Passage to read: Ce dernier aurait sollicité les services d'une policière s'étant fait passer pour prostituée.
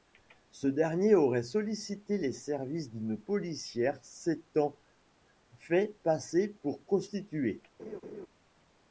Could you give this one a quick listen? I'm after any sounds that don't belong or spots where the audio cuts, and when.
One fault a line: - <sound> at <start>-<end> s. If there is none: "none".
- laugh at 7.8-8.3 s